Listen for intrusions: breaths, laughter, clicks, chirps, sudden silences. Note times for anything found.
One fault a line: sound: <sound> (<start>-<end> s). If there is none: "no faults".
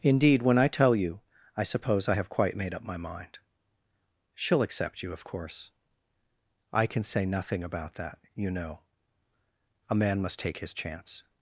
no faults